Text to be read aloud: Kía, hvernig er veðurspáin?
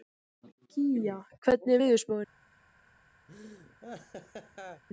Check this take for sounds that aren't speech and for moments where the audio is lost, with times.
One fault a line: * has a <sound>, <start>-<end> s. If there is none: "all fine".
* has a laugh, 3.3-4.8 s